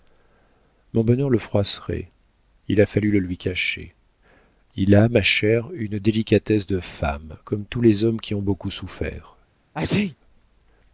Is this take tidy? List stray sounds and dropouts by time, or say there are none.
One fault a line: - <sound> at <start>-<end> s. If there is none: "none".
- sneeze at 9.7-10.2 s